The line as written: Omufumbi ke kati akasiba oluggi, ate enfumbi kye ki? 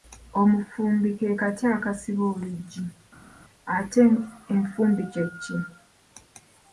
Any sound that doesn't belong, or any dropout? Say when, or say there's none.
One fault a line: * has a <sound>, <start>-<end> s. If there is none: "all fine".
all fine